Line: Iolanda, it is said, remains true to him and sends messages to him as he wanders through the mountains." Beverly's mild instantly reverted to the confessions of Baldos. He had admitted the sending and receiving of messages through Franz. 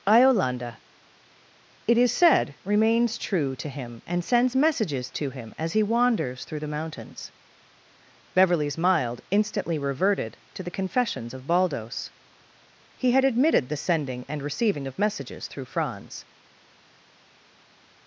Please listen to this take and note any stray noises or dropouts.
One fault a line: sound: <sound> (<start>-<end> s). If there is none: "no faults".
no faults